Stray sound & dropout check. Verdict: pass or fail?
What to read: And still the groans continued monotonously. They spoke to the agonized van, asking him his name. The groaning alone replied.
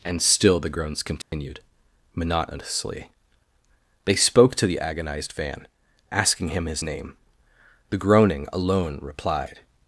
fail